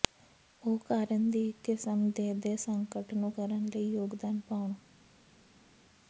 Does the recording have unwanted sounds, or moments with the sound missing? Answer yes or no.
no